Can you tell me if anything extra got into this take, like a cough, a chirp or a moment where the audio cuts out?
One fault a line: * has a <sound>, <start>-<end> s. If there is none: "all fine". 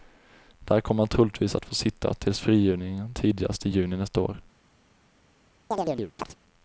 * has a chirp, 5.7-6.4 s